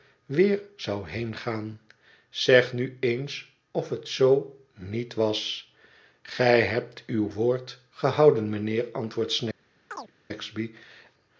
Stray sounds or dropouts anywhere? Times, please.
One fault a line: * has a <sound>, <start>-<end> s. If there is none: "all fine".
* has a chirp, 9.9-10.1 s